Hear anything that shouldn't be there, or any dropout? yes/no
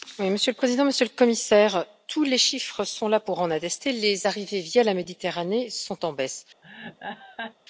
yes